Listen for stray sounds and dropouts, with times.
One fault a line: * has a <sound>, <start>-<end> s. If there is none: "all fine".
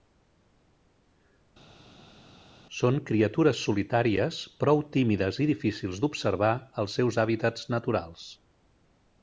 all fine